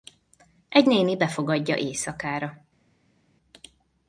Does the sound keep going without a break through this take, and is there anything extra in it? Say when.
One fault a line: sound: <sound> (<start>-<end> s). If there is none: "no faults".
no faults